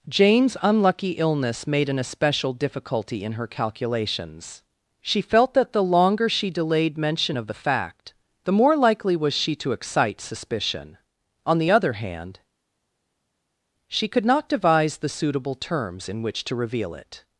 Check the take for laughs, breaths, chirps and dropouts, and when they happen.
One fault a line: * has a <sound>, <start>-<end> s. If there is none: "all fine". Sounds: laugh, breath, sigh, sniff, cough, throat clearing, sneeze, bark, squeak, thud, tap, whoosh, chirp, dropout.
all fine